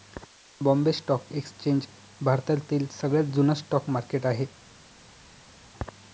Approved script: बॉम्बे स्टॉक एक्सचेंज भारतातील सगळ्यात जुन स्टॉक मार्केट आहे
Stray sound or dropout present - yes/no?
no